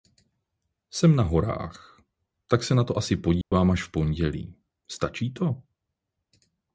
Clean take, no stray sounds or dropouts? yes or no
no